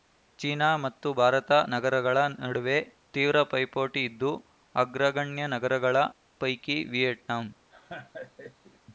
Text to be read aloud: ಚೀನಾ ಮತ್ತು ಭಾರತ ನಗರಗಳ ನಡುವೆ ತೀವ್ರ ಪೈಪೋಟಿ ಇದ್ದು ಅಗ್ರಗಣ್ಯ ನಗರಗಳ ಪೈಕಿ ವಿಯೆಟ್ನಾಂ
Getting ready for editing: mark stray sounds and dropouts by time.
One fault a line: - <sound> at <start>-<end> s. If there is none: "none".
- laugh at 7.7-8.8 s